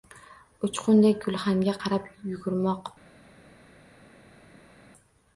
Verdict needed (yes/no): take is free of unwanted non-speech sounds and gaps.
yes